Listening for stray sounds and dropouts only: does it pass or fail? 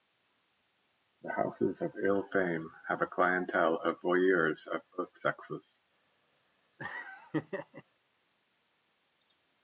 fail